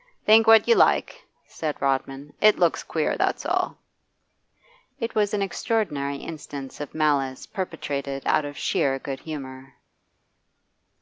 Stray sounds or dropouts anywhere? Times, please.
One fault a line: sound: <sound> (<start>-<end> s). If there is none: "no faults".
no faults